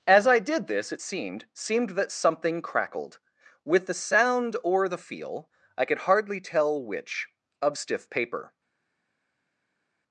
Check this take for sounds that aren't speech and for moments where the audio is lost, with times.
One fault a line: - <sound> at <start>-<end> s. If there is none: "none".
none